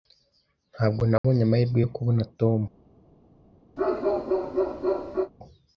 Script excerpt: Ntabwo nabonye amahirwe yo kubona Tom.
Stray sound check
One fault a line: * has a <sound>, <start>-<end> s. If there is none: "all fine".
* has a dropout, 1.2-1.2 s
* has a bark, 3.8-5.3 s